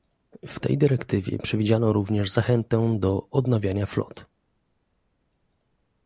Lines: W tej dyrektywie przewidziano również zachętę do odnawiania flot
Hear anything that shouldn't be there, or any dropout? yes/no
no